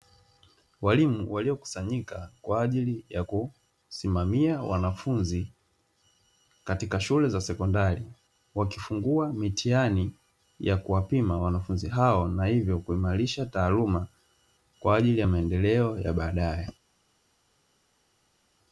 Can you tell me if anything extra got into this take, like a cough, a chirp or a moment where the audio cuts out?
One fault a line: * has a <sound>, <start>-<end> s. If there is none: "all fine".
all fine